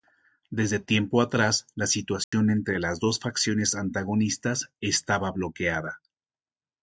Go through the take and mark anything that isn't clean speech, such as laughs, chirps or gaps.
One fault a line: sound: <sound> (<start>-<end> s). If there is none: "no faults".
sound: dropout (2.2-2.3 s)